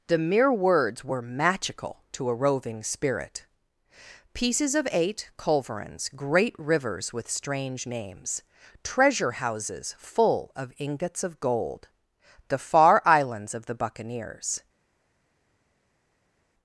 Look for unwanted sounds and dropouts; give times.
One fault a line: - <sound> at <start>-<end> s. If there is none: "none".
none